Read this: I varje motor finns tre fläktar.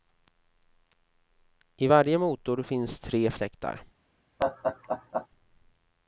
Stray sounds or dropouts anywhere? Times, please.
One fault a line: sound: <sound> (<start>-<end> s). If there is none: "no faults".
sound: laugh (4.4-5.3 s)